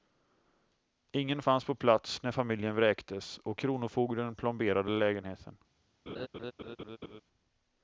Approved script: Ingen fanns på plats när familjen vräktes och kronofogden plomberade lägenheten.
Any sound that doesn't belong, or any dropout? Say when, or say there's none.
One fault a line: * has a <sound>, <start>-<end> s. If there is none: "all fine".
* has a laugh, 6.1-7.2 s